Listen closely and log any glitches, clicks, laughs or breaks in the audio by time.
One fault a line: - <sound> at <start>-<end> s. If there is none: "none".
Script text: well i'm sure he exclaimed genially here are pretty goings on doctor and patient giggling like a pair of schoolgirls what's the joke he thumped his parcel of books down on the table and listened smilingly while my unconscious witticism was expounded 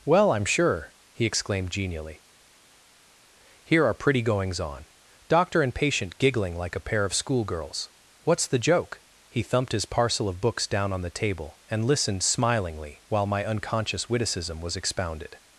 none